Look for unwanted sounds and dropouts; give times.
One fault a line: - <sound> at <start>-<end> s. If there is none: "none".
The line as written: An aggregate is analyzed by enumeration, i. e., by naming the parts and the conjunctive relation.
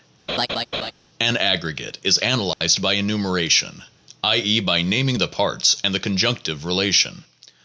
- laugh at 0.3-0.9 s
- dropout at 2.5-2.6 s